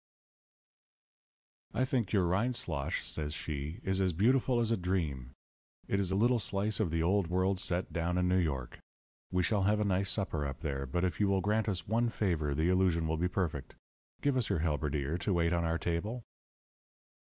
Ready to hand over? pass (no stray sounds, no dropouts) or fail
pass